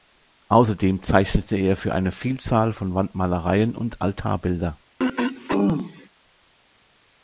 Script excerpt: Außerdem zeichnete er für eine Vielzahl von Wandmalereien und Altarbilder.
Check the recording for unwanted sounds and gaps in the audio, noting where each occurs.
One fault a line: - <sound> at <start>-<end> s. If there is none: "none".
- throat clearing at 5.0-6.1 s